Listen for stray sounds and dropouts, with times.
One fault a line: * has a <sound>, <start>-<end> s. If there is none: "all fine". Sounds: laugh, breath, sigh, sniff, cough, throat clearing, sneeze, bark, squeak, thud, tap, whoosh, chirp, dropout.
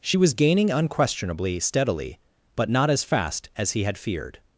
all fine